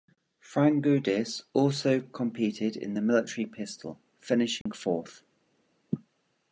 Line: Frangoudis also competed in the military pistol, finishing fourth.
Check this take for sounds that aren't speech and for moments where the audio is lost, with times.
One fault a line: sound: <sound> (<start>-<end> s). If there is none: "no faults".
sound: dropout (4.6-4.7 s)